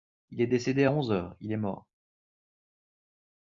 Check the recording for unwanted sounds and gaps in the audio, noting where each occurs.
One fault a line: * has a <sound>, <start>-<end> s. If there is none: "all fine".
all fine